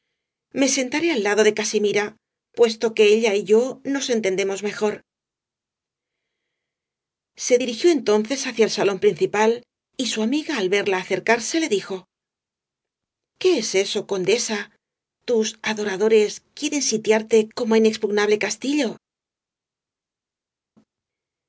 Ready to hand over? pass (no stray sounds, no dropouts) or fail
pass